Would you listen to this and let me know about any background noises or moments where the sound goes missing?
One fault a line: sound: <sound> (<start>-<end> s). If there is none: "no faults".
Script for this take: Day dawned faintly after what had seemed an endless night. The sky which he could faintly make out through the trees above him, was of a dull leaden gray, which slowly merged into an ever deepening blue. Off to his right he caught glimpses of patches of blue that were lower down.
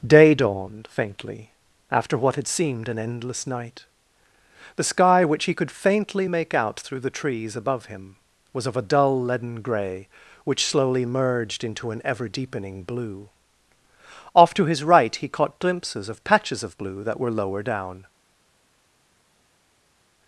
no faults